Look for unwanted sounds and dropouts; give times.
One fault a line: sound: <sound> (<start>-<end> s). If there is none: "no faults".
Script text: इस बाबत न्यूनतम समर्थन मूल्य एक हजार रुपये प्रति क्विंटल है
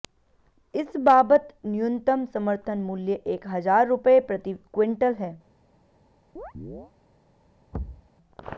sound: chirp (6.4-6.9 s)
sound: thud (7.7-8.1 s)